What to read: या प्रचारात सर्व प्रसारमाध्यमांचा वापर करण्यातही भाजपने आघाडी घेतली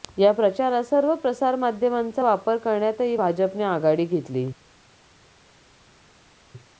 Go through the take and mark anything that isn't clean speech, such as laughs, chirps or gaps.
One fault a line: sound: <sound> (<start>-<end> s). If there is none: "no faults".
no faults